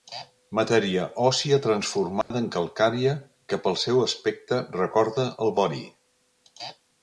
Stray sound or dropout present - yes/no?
yes